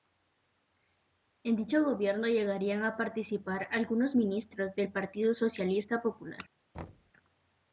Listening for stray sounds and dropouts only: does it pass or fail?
fail